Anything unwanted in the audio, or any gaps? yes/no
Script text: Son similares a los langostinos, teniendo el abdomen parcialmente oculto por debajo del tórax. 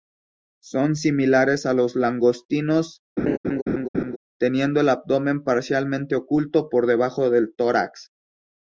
yes